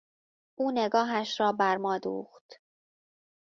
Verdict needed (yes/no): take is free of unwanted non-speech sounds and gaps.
yes